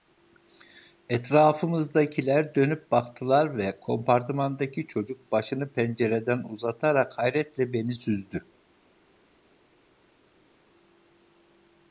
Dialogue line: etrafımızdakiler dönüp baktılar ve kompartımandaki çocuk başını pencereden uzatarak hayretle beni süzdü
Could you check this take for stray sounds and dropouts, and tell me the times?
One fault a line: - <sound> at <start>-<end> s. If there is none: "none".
none